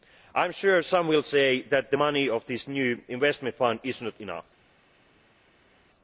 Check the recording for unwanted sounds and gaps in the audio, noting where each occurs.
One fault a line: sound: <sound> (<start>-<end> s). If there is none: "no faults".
no faults